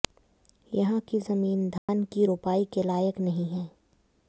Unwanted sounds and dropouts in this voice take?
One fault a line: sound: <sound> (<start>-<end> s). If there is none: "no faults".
sound: dropout (1.8-1.9 s)